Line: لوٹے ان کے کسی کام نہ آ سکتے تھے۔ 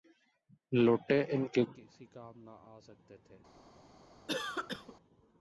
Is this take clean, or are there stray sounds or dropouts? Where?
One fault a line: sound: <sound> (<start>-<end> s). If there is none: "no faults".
sound: cough (4.3-5.0 s)